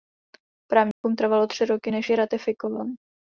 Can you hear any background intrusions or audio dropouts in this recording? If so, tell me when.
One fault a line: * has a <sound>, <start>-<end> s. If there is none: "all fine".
* has a dropout, 0.9-1.0 s